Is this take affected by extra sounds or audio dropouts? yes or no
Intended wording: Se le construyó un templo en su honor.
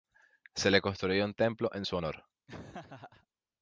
yes